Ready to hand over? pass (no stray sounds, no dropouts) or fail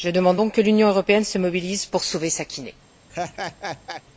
fail